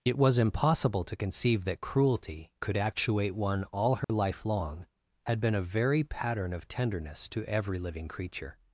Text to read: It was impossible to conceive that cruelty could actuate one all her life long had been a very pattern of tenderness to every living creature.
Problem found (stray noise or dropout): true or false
true